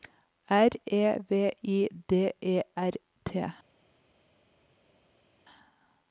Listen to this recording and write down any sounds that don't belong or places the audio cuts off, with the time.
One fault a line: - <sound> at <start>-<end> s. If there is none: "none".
none